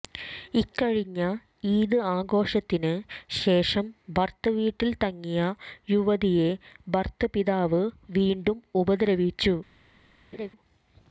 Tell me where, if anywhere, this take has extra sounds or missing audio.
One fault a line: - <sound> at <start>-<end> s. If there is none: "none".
- laugh at 10.3-10.5 s